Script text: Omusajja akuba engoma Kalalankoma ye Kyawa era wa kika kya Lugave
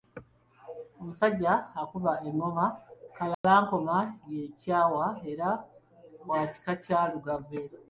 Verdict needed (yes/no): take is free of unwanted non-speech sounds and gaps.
no